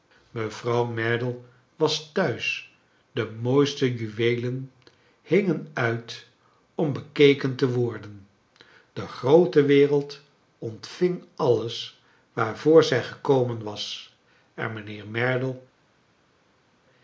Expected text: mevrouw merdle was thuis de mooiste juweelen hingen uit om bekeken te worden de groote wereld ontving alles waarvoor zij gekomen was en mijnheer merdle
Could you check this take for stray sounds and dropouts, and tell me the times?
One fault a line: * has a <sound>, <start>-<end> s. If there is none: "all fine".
all fine